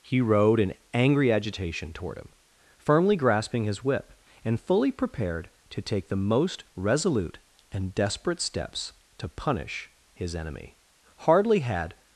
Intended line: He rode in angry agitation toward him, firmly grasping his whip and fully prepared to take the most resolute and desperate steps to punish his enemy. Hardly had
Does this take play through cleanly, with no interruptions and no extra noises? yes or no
yes